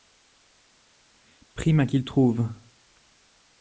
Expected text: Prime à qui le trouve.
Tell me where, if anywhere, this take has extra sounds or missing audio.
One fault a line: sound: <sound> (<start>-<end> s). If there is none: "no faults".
no faults